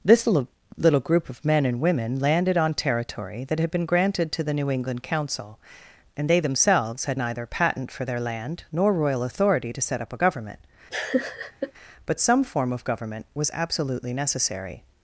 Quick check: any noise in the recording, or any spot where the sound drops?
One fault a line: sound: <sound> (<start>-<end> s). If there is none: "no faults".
sound: laugh (10.9-11.7 s)